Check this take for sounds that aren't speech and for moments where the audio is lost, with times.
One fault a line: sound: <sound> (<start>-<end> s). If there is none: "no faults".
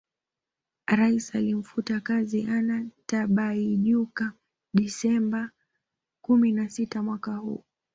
no faults